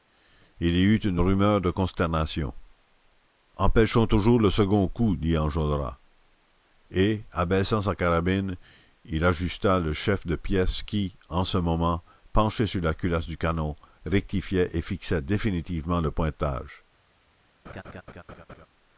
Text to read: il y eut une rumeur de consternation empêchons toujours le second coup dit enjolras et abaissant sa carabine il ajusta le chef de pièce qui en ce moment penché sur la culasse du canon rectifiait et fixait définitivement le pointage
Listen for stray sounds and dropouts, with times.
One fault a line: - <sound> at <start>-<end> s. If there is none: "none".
- laugh at 17.6-18.7 s